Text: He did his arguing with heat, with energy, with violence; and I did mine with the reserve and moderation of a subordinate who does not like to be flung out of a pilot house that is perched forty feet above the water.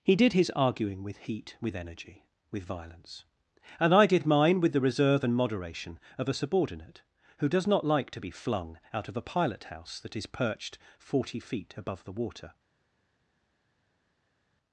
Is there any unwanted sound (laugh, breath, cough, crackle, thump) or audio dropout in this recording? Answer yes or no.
no